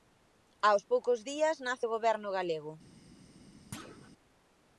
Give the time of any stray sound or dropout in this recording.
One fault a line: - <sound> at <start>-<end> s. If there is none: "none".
- thud at 3.7-4.1 s